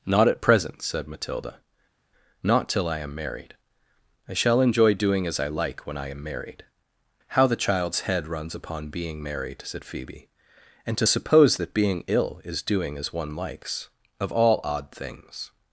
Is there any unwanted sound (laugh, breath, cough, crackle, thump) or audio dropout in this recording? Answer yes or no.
no